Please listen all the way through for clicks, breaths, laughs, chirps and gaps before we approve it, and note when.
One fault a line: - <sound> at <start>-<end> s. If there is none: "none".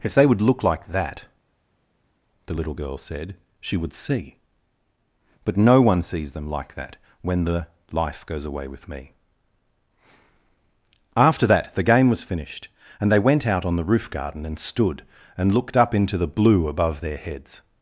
none